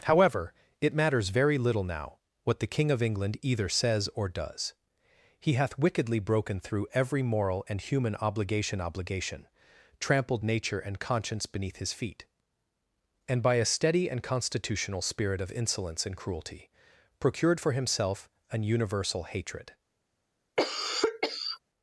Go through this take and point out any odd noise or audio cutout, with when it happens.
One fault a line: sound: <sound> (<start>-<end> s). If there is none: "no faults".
sound: cough (20.6-21.6 s)